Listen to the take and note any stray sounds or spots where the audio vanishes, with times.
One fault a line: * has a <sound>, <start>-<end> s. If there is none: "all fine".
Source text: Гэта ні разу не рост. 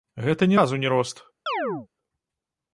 * has a chirp, 1.5-1.9 s